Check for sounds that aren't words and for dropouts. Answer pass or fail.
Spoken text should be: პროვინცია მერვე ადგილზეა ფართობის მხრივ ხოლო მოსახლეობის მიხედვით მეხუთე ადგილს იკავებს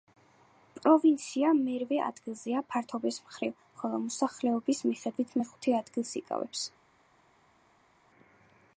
pass